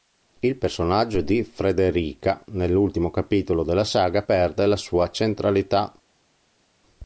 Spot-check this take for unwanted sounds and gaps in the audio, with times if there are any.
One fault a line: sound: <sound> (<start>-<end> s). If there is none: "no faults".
no faults